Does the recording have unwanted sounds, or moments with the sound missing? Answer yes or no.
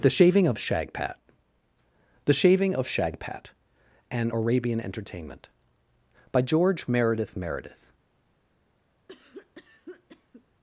yes